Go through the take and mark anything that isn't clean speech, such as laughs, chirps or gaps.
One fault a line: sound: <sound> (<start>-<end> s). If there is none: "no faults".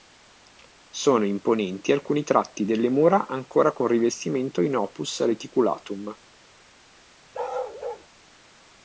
sound: bark (7.3-8.1 s)